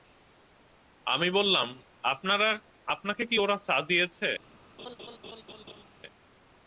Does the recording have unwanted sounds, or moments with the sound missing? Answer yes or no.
yes